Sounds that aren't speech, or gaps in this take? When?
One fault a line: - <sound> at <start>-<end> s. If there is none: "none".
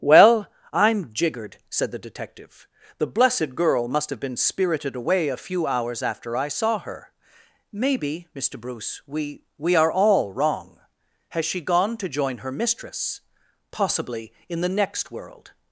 none